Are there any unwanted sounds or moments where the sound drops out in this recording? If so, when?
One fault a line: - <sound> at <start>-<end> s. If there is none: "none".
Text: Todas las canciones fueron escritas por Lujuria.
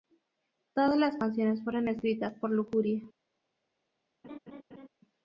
- laugh at 4.2-4.9 s